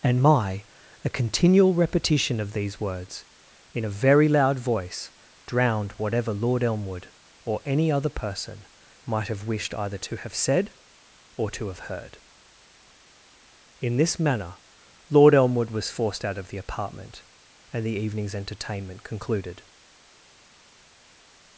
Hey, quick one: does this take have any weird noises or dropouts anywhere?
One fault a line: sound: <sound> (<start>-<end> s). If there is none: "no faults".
no faults